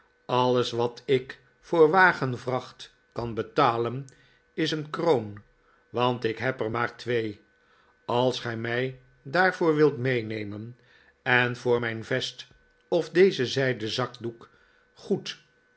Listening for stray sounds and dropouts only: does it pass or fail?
pass